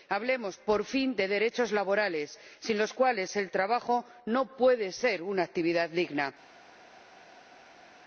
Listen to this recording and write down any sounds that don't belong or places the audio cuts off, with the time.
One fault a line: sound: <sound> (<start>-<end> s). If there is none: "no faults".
no faults